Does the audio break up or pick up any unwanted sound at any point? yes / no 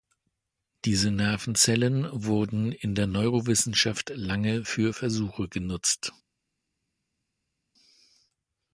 no